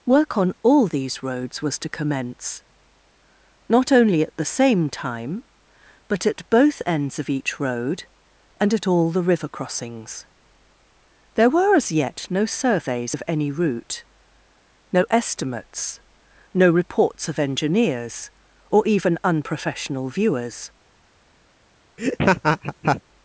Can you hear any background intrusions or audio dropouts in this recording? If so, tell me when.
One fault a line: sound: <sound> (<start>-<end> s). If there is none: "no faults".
sound: laugh (22.0-23.0 s)